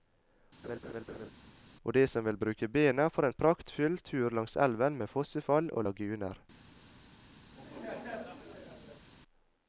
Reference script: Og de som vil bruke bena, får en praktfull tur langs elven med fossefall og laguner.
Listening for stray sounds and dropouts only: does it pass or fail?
fail